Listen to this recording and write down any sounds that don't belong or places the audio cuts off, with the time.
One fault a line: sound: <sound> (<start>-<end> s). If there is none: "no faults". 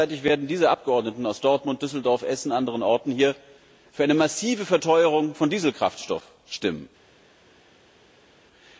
no faults